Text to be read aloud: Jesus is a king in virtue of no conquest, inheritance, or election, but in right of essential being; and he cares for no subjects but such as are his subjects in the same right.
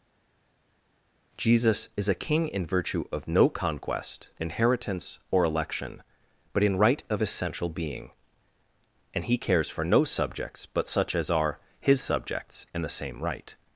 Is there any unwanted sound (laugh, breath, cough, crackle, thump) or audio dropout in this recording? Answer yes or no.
no